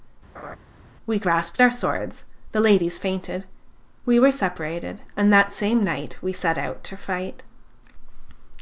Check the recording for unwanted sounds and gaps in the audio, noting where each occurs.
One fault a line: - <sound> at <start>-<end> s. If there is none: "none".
- laugh at 0.3-0.6 s